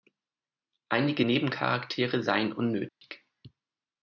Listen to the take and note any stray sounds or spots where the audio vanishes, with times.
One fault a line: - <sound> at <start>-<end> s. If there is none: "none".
- dropout at 2.9-3.0 s